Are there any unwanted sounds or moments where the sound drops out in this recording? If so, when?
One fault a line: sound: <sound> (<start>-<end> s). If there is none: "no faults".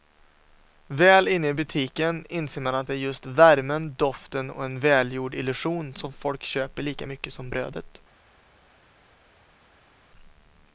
no faults